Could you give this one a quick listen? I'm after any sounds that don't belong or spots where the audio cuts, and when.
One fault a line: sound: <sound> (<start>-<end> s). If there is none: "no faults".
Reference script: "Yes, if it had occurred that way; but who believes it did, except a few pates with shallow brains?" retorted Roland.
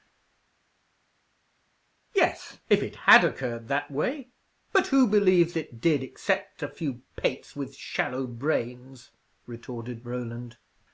no faults